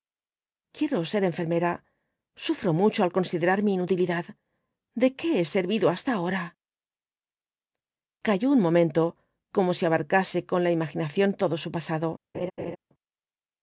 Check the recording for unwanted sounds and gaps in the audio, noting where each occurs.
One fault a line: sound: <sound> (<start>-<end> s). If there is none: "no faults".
sound: laugh (12.3-12.8 s)